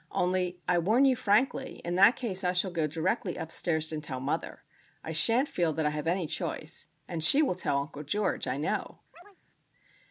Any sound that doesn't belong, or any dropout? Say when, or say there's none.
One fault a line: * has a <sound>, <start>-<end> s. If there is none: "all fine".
* has a chirp, 9.1-9.4 s